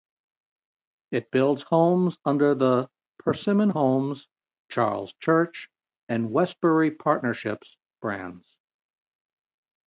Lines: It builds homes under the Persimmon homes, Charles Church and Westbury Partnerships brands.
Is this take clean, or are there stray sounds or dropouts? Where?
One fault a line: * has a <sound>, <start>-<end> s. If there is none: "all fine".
all fine